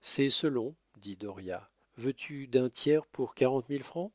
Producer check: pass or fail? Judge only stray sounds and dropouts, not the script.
pass